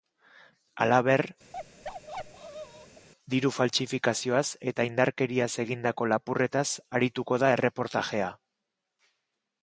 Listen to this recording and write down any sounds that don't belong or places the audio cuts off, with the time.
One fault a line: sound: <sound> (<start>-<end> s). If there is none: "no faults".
sound: bark (1.5-3.1 s)